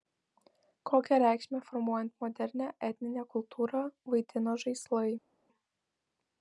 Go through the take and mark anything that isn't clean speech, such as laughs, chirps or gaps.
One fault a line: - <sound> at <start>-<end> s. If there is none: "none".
none